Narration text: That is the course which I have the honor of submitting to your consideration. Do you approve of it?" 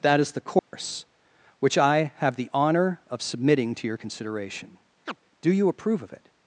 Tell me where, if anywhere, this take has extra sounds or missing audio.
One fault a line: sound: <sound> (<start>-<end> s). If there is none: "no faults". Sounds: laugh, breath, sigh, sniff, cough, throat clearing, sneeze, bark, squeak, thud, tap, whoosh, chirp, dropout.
sound: dropout (0.6-0.7 s)
sound: chirp (5.1-5.2 s)